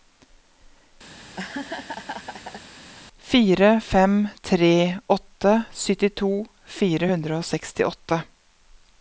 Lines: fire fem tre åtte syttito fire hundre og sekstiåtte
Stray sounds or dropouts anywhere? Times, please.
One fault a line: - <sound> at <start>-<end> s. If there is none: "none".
- laugh at 1.1-2.7 s